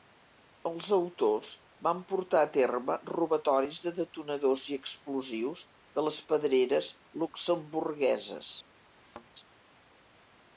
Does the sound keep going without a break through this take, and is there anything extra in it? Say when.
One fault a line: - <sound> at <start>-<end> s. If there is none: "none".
- thud at 8.9-9.3 s